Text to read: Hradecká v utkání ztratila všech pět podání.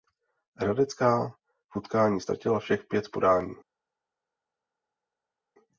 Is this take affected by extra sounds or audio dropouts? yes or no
no